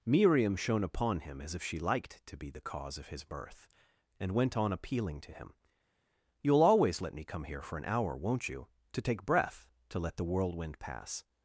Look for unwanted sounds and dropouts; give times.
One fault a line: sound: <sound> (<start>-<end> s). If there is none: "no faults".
no faults